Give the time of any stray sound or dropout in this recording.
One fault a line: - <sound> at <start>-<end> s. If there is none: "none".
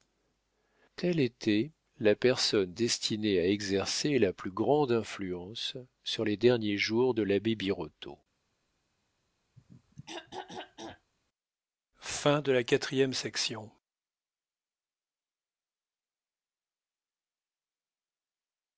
- throat clearing at 9.6-11.1 s